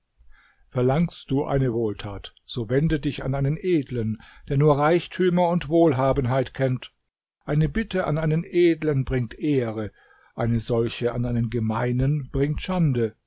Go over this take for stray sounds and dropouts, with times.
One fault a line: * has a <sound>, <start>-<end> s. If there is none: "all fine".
all fine